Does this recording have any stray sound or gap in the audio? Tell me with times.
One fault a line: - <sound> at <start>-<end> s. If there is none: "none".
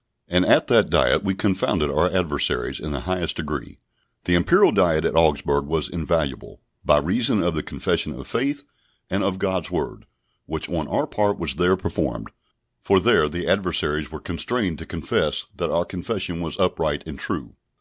none